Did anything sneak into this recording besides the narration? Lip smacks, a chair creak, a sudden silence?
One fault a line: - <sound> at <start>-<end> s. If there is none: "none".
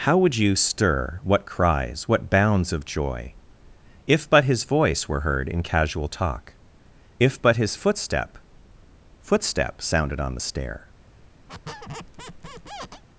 - squeak at 11.5-13.0 s